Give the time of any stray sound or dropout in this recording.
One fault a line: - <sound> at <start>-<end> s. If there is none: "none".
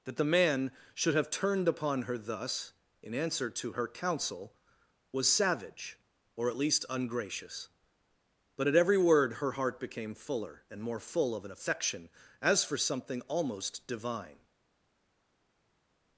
none